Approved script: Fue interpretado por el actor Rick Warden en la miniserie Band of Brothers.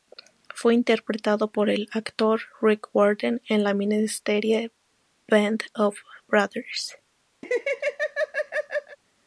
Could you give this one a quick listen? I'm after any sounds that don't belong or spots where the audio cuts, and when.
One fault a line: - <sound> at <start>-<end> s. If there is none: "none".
- laugh at 7.4-9.0 s